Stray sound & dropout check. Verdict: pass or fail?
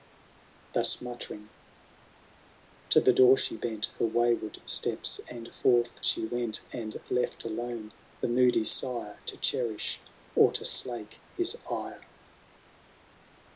pass